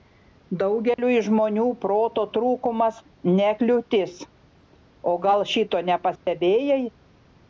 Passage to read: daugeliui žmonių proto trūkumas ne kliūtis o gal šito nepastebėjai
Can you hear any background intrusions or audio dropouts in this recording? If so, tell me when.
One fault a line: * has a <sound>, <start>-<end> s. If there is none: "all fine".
* has a dropout, 0.9-1.0 s
* has a dropout, 6.2-6.3 s